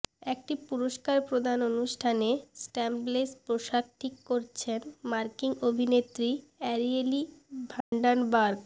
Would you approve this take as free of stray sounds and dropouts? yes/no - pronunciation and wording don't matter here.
no